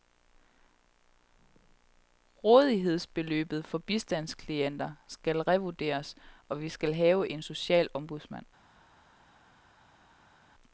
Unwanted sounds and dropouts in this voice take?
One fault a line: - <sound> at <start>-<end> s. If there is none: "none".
none